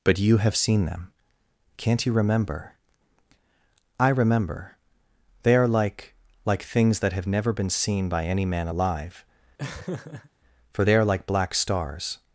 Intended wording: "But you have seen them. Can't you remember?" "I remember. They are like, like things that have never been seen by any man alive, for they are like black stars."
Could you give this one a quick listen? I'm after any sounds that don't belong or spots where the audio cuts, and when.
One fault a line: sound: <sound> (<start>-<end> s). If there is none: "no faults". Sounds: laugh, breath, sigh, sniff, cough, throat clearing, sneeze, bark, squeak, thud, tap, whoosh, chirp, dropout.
sound: laugh (9.6-10.3 s)